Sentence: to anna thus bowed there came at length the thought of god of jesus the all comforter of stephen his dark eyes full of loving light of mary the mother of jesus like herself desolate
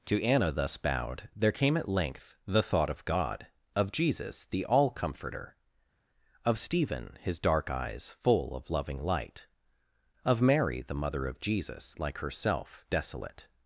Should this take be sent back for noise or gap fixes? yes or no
no